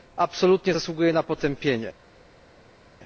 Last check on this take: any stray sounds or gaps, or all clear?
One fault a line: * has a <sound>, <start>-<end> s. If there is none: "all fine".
all fine